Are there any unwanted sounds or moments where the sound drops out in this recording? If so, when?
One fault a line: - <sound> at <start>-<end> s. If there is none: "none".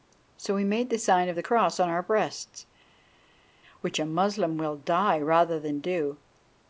none